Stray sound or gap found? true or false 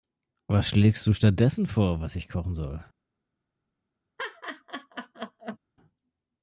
true